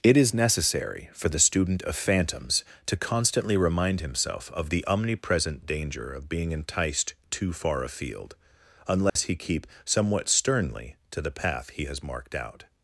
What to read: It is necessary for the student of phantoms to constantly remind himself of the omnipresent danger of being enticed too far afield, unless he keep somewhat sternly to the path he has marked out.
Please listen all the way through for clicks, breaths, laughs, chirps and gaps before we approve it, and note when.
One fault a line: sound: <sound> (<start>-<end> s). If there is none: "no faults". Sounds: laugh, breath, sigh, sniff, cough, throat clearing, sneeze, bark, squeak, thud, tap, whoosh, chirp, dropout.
sound: dropout (9.1-9.2 s)